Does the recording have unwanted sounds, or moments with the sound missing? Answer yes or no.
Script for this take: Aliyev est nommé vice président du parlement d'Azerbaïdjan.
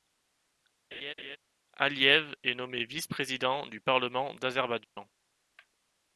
yes